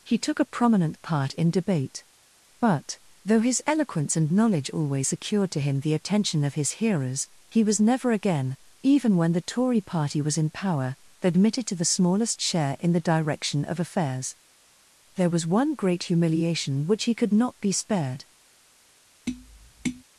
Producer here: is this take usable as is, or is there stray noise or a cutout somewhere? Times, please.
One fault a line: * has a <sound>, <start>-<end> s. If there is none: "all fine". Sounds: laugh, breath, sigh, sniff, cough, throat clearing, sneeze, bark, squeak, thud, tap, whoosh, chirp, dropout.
* has a tap, 19.3-20.0 s